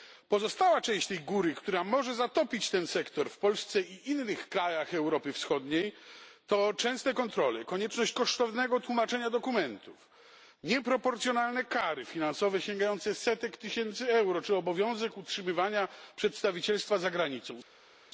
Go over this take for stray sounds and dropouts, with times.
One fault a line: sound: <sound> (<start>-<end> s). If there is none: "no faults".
no faults